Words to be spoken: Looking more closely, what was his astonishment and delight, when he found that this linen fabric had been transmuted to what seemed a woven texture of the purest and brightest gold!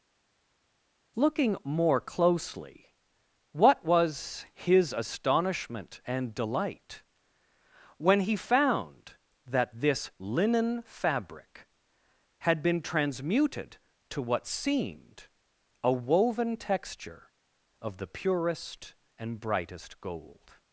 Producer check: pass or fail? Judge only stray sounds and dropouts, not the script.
pass